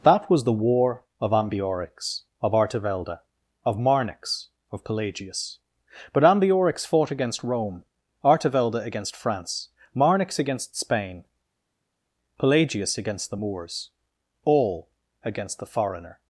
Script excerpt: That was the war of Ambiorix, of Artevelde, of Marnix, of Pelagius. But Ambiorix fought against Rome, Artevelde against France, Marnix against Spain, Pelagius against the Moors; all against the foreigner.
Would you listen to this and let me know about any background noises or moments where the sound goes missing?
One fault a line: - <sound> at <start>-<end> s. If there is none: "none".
none